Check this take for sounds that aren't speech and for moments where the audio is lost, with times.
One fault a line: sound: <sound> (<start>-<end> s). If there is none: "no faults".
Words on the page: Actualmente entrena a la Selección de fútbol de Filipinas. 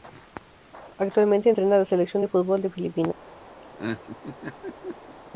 sound: laugh (3.6-5.2 s)